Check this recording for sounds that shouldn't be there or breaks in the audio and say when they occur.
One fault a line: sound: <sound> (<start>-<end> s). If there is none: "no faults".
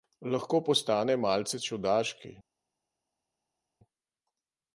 no faults